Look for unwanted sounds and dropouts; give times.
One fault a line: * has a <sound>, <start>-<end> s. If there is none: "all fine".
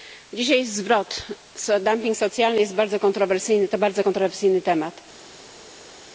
all fine